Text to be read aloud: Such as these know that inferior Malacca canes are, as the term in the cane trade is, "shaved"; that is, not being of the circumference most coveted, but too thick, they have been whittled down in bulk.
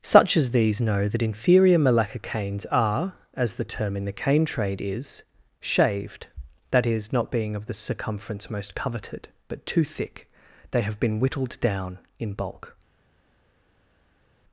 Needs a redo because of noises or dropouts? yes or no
no